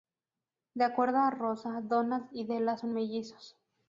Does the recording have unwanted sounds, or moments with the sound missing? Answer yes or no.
no